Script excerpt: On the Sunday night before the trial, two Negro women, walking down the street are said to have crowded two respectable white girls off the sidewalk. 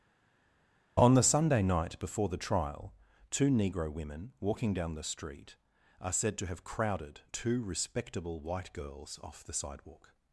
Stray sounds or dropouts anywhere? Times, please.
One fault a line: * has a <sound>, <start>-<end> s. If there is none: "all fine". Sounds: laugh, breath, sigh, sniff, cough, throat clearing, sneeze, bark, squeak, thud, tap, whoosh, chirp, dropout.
all fine